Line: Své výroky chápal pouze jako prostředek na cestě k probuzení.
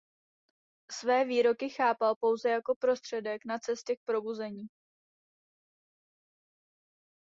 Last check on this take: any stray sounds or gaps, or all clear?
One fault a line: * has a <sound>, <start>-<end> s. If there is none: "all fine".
all fine